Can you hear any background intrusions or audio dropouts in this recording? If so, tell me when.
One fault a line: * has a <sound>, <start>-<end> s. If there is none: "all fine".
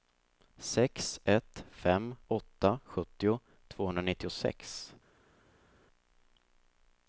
all fine